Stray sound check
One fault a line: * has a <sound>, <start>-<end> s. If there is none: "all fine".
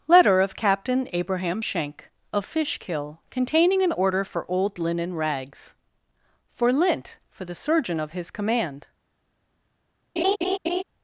* has a laugh, 10.2-10.8 s